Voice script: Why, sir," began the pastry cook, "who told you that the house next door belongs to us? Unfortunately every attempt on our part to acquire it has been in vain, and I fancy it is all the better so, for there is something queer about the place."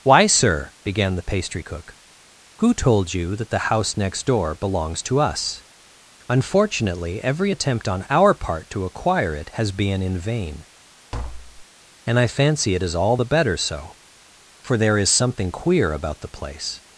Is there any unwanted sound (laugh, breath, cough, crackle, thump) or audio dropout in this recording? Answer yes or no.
yes